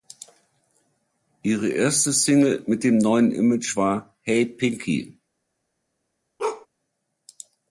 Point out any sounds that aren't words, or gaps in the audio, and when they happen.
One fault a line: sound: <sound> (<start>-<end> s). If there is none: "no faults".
sound: bark (6.4-6.7 s)